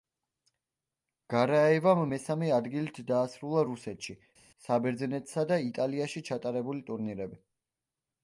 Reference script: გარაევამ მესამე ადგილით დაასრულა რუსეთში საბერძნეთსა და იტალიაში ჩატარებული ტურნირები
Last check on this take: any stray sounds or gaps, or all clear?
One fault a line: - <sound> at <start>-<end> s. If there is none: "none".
none